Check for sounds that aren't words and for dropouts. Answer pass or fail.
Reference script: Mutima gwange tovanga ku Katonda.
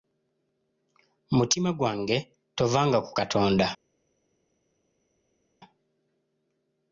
pass